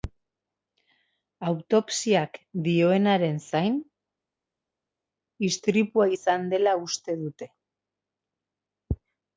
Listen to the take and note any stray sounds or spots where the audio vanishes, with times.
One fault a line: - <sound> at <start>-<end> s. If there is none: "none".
none